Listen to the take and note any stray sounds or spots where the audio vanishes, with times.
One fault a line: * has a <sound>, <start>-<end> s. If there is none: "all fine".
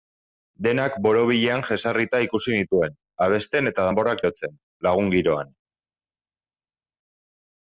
all fine